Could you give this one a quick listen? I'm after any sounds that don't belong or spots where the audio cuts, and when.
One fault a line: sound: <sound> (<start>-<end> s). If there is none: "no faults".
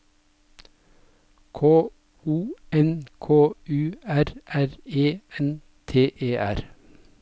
no faults